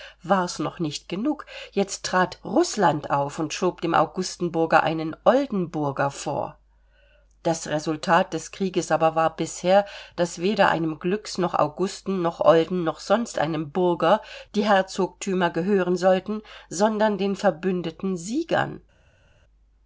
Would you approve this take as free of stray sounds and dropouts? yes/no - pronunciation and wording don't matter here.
yes